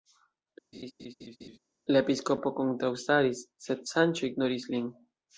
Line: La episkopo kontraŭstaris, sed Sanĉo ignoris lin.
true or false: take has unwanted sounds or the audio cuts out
true